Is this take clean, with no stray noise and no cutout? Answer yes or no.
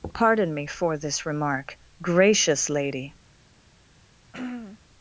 no